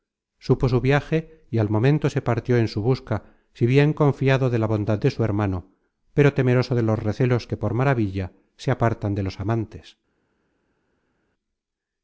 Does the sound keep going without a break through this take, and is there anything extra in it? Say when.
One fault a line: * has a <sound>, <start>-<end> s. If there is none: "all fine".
all fine